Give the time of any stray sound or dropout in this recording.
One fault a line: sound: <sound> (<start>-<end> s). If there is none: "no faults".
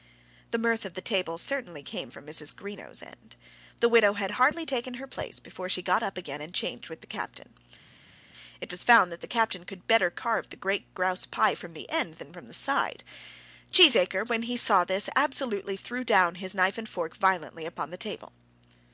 no faults